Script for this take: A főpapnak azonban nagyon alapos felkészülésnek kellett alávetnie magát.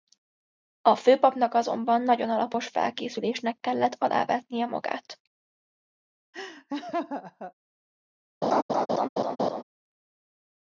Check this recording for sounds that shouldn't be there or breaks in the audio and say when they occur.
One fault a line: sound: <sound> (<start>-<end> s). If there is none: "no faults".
sound: laugh (6.3-7.5 s)
sound: laugh (8.4-9.6 s)